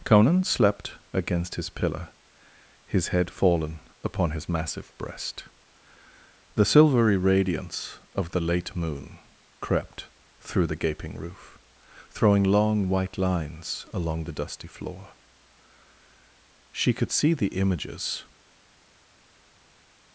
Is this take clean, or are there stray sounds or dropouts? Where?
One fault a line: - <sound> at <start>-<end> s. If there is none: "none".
none